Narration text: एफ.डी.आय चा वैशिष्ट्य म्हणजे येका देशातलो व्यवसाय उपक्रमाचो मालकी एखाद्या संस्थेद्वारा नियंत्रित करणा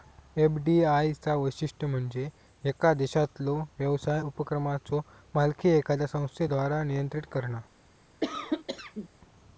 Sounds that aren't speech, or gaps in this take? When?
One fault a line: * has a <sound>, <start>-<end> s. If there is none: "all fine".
* has a cough, 8.2-9.1 s